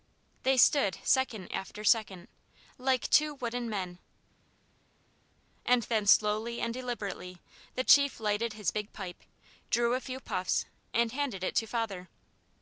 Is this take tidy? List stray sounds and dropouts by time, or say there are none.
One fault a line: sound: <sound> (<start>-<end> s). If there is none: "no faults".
no faults